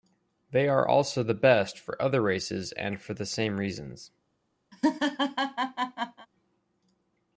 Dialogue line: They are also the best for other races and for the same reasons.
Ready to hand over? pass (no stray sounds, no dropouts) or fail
fail